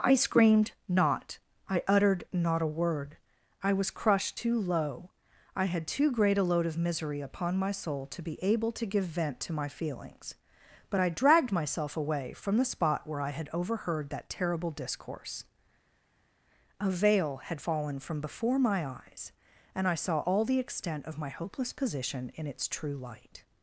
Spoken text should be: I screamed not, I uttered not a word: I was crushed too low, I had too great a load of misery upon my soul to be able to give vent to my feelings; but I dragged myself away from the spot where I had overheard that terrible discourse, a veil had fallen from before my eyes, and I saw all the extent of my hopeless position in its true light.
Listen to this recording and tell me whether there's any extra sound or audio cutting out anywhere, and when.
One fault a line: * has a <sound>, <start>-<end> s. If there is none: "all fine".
all fine